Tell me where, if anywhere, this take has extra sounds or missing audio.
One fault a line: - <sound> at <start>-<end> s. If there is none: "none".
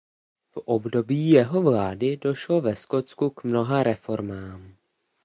none